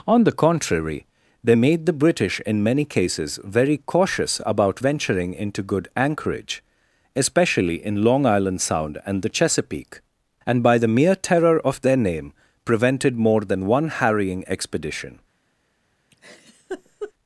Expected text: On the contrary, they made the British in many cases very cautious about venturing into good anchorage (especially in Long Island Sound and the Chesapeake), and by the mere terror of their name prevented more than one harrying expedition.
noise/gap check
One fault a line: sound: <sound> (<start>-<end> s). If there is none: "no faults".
sound: laugh (16.1-17.1 s)